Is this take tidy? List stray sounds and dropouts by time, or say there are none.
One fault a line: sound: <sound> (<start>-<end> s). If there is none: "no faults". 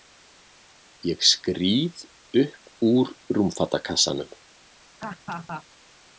sound: laugh (5.0-5.6 s)